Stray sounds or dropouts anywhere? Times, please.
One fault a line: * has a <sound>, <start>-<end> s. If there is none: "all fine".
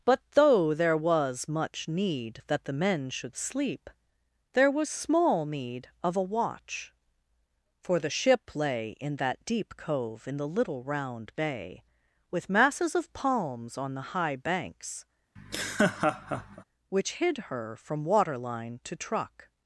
* has a laugh, 15.4-16.6 s